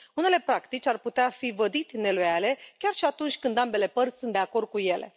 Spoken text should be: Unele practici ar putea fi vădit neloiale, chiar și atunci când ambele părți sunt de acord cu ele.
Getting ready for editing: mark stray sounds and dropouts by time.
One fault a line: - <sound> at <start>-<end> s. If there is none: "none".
none